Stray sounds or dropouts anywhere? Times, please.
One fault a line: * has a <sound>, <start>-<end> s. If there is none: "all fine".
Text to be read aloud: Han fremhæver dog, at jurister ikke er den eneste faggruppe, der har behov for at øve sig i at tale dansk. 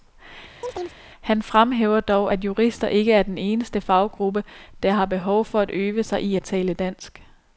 * has a chirp, 0.6-1.0 s